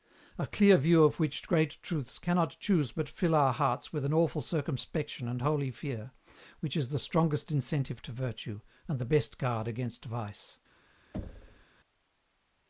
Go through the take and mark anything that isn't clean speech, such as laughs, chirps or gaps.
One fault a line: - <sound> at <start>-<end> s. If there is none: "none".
- thud at 11.1-11.7 s